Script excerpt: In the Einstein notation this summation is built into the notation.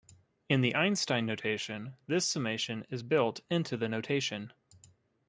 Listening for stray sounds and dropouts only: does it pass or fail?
pass